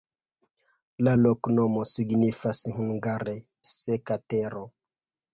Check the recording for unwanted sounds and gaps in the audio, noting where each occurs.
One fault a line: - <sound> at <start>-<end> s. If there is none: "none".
none